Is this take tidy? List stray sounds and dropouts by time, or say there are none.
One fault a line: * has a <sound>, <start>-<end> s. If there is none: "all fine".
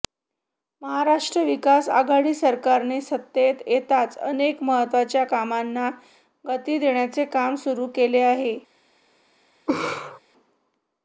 * has a laugh, 9.7-10.2 s